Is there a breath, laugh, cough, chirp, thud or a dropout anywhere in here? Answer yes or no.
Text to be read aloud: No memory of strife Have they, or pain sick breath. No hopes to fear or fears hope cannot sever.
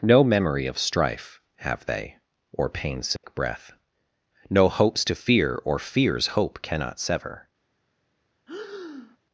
yes